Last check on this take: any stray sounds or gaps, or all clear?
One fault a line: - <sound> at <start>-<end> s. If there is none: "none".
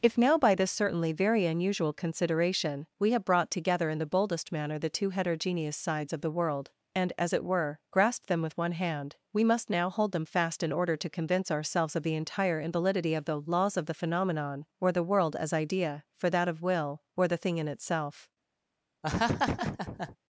- laugh at 19.0-20.2 s